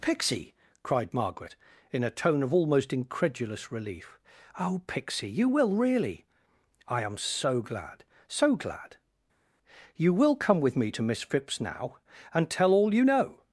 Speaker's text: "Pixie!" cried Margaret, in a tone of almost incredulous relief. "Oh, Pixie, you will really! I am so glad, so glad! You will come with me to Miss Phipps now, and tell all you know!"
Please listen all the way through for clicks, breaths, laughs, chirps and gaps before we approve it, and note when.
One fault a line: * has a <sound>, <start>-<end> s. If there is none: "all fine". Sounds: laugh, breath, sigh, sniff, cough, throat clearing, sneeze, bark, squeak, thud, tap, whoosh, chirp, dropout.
all fine